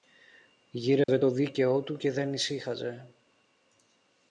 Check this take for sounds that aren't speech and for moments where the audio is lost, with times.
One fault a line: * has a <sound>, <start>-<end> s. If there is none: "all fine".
* has a dropout, 1.0-1.1 s